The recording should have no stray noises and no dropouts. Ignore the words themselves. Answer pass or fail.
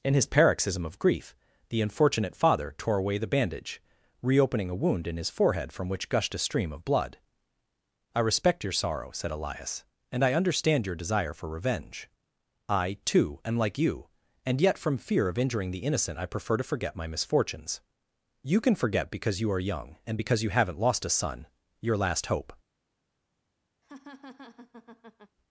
fail